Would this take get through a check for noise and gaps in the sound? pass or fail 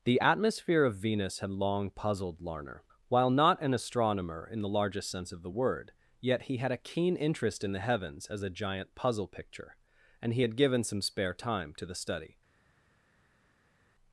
pass